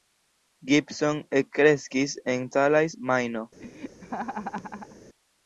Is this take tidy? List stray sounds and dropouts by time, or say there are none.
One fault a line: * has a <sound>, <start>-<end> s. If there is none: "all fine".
* has a laugh, 3.6-5.0 s